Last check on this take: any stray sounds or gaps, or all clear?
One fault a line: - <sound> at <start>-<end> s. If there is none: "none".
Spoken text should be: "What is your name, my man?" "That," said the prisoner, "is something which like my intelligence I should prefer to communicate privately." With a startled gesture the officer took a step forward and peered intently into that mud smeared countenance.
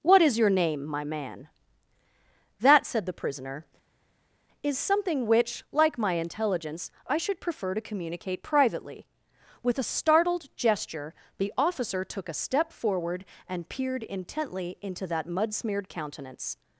none